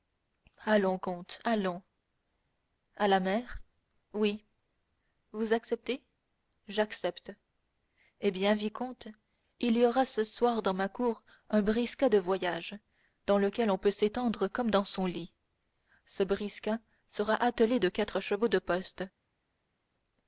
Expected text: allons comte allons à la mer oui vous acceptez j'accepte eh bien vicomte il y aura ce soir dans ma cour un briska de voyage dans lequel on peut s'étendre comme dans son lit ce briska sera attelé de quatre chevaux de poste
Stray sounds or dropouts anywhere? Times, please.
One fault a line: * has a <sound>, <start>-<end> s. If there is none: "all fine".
all fine